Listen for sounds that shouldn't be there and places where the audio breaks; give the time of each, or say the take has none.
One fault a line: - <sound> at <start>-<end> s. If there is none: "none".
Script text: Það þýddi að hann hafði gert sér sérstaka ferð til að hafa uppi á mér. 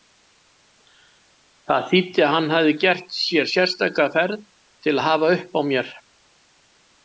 none